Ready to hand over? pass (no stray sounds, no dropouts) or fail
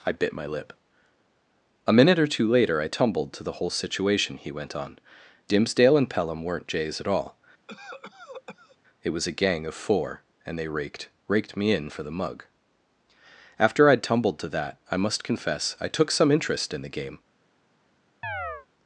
fail